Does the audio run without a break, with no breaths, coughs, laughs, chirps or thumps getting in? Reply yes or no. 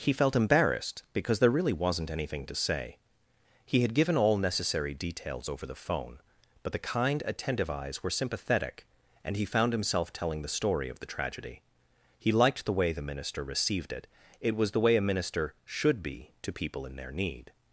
yes